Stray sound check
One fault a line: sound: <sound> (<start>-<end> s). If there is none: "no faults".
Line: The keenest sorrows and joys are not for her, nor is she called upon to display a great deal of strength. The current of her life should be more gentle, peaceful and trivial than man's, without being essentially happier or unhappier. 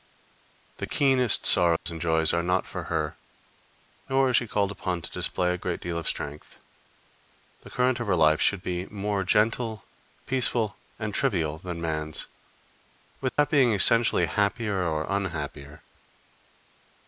sound: dropout (1.8-1.9 s)
sound: dropout (13.3-13.4 s)